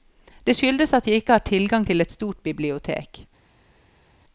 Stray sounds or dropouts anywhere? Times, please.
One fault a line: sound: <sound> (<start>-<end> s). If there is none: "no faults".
no faults